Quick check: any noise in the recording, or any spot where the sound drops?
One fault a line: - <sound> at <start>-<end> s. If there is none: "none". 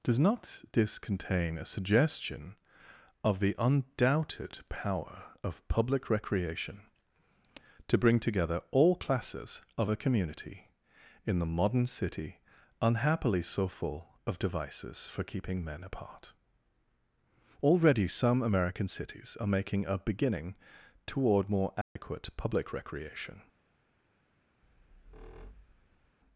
- dropout at 21.8-22.0 s
- squeak at 24.6-26.2 s